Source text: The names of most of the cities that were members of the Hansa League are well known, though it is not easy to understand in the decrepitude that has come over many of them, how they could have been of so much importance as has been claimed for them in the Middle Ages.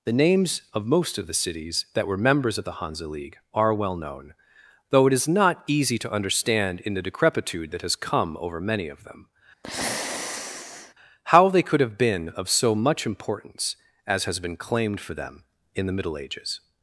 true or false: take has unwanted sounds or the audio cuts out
true